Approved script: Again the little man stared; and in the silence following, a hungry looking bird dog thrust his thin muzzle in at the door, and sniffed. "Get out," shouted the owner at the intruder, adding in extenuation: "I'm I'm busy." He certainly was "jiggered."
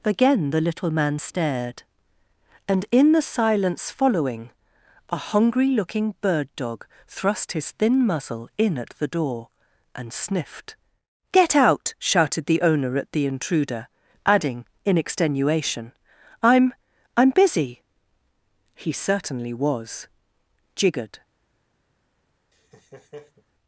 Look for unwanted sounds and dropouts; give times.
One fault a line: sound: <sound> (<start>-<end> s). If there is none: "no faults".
sound: laugh (22.5-23.4 s)